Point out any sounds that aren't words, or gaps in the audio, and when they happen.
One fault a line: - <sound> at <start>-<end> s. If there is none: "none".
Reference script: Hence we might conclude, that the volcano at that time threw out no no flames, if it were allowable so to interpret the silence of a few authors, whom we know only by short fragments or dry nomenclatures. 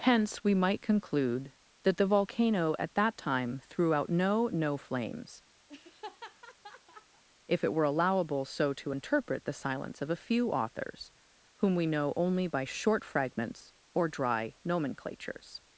- laugh at 5.7-7.2 s